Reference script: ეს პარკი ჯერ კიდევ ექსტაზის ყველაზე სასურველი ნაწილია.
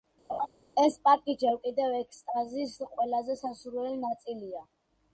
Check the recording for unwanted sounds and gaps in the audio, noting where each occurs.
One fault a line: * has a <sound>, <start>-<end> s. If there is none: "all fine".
* has a laugh, 0.3-0.5 s